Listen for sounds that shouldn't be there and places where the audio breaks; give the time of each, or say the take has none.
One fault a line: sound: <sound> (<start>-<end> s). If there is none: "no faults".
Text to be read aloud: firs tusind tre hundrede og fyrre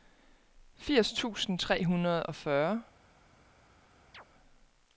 sound: chirp (4.1-4.3 s)